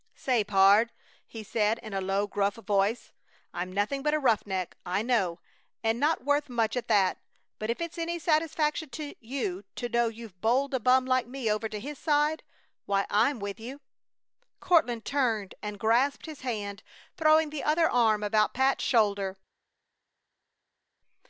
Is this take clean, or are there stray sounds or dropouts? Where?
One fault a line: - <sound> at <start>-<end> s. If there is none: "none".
none